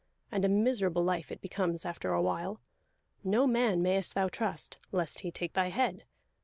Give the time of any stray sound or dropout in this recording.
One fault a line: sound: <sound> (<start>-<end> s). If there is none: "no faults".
no faults